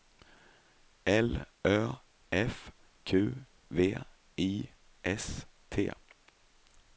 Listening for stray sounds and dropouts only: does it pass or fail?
pass